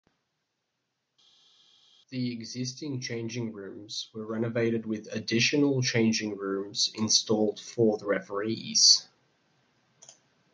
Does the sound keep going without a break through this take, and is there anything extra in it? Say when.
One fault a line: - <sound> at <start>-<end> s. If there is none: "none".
none